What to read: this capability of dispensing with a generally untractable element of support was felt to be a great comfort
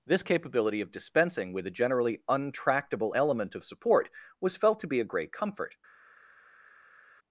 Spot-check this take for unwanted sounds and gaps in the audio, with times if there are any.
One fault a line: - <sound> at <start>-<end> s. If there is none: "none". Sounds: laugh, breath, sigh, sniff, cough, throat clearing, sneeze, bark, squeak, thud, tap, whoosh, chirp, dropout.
none